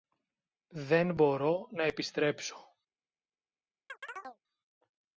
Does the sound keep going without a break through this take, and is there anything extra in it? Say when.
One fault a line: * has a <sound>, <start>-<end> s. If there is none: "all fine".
* has a chirp, 3.9-4.4 s